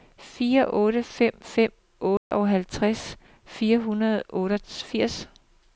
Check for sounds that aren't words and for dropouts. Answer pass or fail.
fail